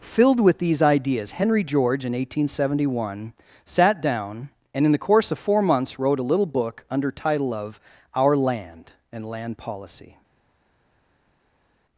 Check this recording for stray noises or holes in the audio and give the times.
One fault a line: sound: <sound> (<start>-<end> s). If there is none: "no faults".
no faults